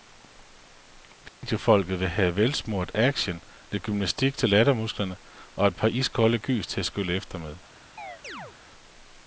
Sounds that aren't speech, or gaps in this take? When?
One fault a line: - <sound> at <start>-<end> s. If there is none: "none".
- dropout at 1.3-1.4 s
- chirp at 8.0-8.6 s